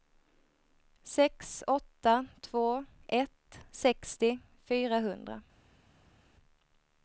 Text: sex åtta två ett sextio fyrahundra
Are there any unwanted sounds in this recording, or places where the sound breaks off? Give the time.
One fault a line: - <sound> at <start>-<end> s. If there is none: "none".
none